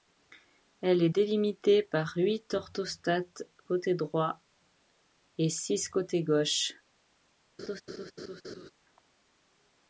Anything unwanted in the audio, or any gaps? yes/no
yes